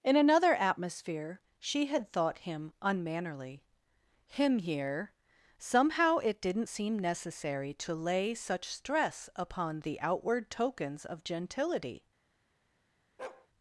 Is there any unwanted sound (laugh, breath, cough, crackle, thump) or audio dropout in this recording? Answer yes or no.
yes